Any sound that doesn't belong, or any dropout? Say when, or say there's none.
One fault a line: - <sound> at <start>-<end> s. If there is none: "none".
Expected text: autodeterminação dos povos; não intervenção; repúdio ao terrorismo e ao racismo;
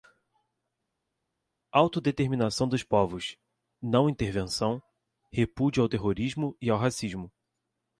none